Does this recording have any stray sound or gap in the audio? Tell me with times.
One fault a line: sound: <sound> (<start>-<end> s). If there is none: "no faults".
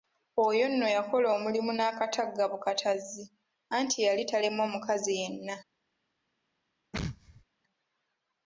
sound: sneeze (6.9-7.4 s)